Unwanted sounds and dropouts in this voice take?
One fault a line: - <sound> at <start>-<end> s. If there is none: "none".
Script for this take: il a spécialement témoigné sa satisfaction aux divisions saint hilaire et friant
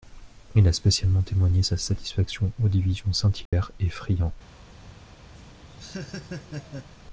- dropout at 3.5-3.5 s
- laugh at 5.3-6.9 s